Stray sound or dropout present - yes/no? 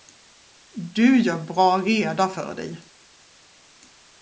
no